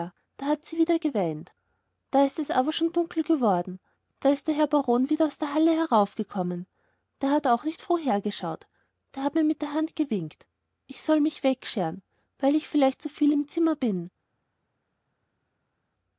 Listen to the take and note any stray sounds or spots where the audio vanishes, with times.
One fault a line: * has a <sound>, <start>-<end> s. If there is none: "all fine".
all fine